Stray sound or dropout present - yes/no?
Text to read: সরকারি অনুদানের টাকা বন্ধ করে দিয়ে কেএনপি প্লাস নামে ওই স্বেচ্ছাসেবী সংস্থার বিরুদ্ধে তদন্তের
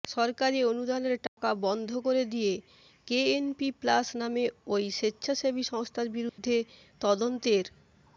yes